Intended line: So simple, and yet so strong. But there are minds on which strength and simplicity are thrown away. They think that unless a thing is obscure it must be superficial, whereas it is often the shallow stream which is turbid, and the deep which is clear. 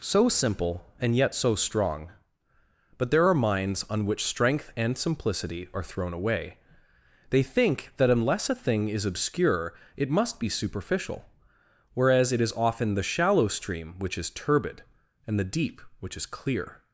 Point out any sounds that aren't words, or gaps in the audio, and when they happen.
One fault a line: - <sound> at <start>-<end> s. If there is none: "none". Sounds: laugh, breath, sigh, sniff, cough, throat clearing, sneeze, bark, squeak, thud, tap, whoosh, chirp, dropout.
none